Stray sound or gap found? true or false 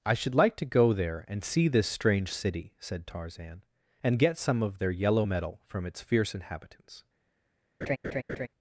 true